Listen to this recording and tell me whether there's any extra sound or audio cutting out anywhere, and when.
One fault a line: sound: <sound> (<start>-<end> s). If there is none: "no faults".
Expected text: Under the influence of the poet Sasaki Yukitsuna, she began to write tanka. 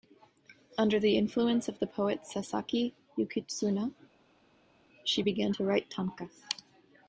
no faults